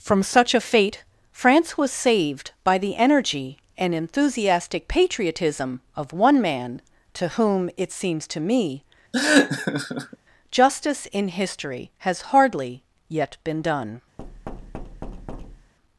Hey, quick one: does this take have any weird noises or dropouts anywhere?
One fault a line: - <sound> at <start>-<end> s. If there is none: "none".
- laugh at 9.1-10.2 s
- thud at 14.2-15.7 s